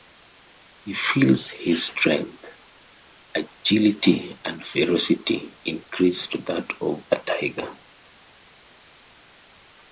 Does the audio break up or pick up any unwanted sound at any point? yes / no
no